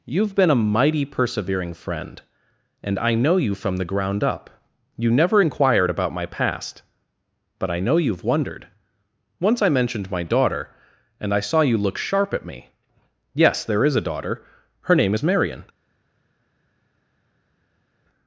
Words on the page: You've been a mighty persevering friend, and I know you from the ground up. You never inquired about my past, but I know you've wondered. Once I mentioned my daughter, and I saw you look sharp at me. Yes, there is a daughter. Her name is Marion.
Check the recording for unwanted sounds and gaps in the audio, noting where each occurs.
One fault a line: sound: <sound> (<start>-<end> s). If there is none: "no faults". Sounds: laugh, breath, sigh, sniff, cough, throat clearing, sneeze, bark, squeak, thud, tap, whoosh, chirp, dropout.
no faults